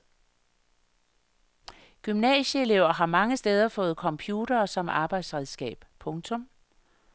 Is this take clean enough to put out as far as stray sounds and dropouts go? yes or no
yes